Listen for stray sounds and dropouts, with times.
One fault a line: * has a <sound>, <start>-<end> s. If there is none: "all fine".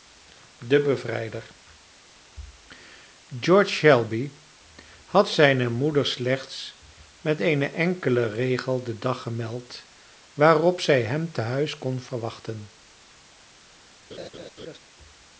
* has a laugh, 14.1-14.8 s